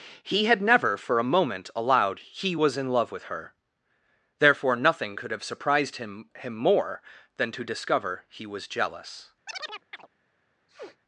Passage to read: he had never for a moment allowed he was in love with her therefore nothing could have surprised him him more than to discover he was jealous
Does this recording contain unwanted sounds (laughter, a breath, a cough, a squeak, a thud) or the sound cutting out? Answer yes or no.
yes